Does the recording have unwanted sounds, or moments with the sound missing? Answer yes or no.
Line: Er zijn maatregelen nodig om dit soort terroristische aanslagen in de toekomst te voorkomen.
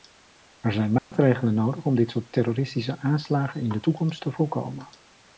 yes